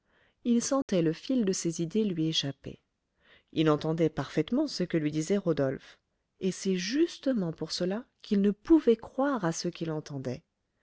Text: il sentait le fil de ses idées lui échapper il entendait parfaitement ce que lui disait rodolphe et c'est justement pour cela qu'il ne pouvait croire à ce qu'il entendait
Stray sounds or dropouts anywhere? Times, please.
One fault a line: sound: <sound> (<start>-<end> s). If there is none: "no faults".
sound: dropout (0.8-0.9 s)